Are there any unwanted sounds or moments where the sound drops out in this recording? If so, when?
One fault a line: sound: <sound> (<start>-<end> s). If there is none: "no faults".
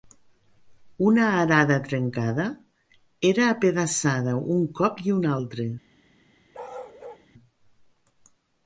sound: bark (6.5-7.3 s)